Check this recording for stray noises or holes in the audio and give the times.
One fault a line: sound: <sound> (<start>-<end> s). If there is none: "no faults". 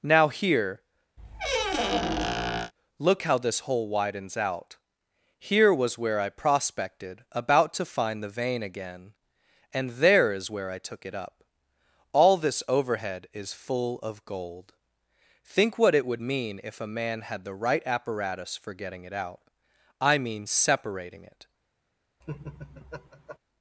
sound: squeak (1.2-2.7 s)
sound: laugh (22.2-23.4 s)